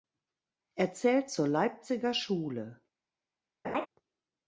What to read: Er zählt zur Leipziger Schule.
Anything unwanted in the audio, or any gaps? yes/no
yes